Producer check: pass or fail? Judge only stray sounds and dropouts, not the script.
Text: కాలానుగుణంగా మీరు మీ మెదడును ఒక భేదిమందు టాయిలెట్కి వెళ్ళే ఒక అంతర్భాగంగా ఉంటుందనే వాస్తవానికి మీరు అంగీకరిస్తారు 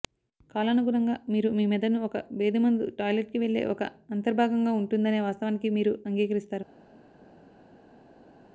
pass